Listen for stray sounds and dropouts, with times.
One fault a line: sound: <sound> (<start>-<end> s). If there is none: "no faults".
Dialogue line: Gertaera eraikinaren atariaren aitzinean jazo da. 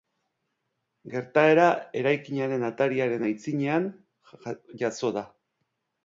no faults